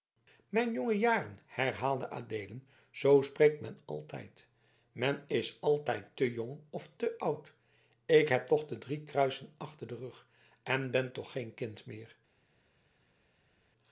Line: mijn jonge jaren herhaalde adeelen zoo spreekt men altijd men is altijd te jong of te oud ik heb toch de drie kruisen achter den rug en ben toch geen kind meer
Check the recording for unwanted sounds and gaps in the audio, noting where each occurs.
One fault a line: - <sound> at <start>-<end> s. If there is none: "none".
none